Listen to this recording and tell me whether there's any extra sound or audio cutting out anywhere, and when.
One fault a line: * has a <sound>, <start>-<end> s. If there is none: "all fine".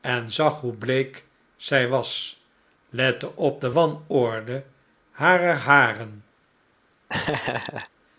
* has a laugh, 7.1-7.9 s